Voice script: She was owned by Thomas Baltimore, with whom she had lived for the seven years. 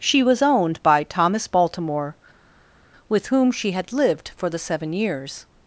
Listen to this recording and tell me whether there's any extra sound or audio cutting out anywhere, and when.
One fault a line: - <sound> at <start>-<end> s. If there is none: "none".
none